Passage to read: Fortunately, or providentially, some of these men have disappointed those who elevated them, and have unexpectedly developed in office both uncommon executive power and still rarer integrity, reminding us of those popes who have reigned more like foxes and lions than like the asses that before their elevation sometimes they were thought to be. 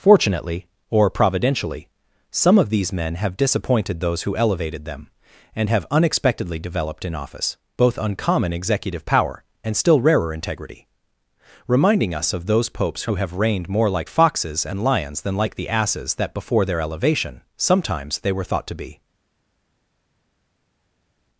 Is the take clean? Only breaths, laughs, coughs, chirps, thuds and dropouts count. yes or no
yes